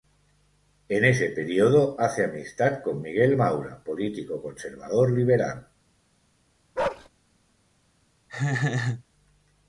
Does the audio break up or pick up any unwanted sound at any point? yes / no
yes